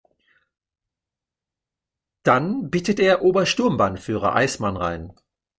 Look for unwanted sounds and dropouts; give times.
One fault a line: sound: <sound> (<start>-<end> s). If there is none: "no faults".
no faults